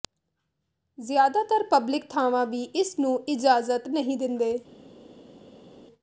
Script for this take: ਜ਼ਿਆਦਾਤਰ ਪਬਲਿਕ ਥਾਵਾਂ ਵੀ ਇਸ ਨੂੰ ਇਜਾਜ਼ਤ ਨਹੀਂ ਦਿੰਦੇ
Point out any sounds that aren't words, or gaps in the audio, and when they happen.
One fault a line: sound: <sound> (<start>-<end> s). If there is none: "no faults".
no faults